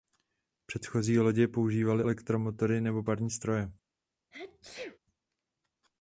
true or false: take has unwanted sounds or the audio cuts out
true